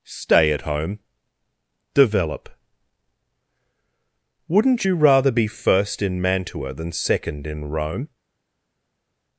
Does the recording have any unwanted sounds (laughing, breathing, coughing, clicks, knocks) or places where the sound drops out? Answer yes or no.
no